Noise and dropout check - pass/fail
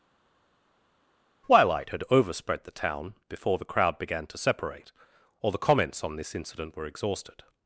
pass